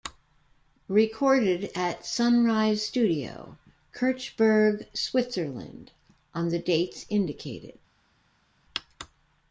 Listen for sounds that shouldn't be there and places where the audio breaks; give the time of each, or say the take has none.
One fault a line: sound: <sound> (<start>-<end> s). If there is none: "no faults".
no faults